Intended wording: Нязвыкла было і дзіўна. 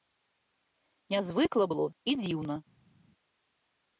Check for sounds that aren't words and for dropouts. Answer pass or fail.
pass